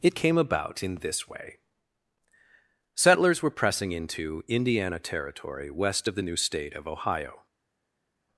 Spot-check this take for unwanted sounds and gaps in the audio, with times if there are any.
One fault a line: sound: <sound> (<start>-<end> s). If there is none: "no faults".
no faults